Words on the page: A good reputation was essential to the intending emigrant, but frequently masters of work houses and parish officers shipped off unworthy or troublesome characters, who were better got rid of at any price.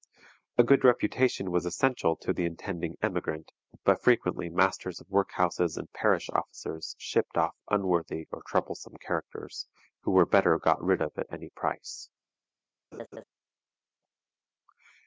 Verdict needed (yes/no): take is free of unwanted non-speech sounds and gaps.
no